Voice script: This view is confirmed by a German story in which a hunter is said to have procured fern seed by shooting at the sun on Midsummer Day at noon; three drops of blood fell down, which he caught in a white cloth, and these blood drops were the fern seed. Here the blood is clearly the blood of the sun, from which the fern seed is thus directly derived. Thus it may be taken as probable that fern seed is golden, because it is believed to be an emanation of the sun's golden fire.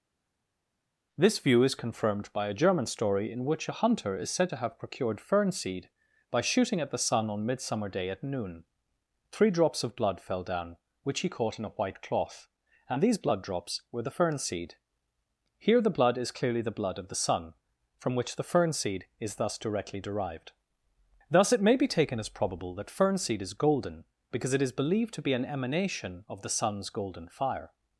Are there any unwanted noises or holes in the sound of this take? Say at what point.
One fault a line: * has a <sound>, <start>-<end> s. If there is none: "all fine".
all fine